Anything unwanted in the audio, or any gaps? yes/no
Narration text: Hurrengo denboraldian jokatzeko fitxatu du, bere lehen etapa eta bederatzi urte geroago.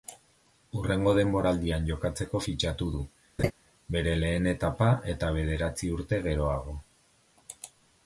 yes